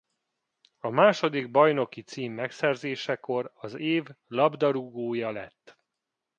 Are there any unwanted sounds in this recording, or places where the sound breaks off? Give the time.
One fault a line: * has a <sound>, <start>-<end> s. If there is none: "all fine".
all fine